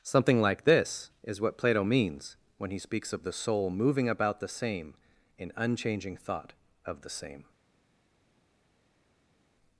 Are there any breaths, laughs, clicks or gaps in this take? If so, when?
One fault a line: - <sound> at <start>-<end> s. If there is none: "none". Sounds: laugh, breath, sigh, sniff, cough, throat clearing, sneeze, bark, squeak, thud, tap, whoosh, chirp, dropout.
none